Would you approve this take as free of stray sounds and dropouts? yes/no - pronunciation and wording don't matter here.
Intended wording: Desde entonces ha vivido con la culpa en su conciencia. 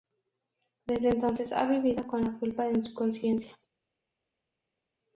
yes